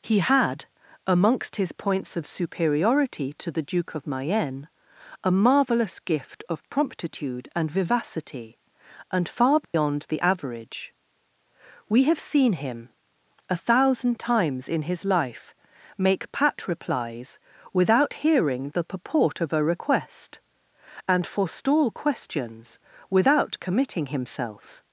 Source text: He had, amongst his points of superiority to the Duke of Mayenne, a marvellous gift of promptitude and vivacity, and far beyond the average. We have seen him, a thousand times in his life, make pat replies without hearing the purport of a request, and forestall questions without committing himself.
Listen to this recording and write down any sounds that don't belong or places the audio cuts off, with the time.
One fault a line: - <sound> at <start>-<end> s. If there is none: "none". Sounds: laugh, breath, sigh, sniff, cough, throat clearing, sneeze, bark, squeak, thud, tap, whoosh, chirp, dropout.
- dropout at 9.6-9.7 s